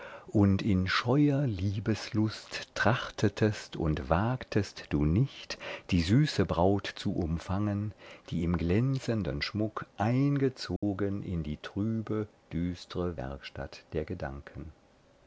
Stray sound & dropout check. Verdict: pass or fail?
fail